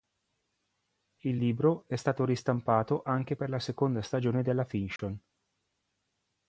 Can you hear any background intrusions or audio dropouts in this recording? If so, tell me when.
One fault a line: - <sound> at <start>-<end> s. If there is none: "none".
- dropout at 5.0-5.0 s